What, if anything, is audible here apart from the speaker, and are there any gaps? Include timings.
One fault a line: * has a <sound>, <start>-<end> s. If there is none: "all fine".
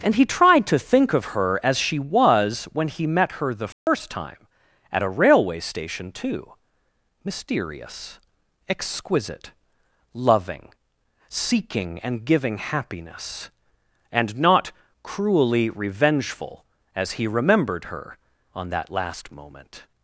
* has a dropout, 3.7-3.9 s